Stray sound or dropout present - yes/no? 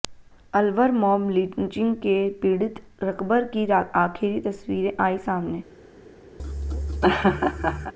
yes